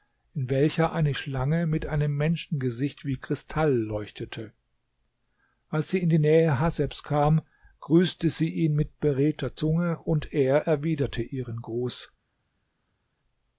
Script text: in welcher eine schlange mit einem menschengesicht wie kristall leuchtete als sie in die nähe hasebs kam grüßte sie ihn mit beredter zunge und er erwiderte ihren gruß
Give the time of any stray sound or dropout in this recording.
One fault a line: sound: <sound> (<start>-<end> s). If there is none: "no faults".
no faults